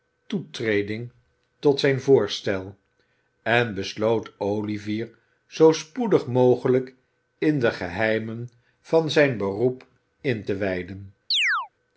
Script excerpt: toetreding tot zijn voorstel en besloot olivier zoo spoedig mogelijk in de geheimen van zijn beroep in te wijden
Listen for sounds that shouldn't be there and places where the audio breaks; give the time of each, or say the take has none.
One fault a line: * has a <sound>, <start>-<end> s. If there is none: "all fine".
* has a chirp, 11.3-11.7 s